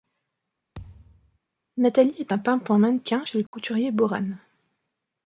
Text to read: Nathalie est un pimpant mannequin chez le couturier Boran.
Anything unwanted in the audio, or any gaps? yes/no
yes